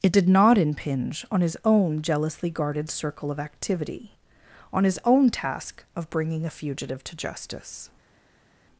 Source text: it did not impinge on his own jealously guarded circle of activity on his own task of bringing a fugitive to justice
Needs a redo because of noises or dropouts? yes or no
no